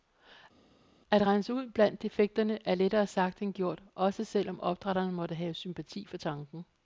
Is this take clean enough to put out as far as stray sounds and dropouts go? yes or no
yes